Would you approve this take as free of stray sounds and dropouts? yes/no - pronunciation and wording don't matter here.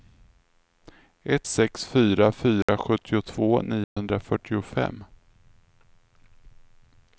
no